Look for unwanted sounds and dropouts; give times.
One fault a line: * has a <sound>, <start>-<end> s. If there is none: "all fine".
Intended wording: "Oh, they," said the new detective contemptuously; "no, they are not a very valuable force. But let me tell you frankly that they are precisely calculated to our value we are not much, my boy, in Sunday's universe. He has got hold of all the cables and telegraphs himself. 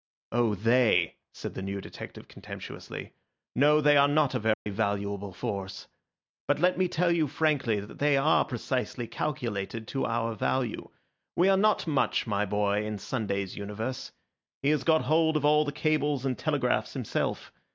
* has a dropout, 4.5-4.7 s